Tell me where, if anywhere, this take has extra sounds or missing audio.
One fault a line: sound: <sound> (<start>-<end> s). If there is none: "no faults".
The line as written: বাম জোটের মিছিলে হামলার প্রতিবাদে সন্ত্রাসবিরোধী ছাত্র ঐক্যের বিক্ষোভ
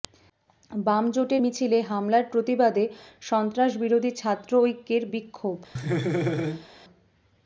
sound: laugh (5.8-6.7 s)